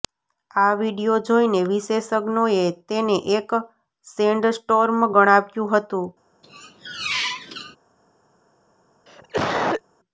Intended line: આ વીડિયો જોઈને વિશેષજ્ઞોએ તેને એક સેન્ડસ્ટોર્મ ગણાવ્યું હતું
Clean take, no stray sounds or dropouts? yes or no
no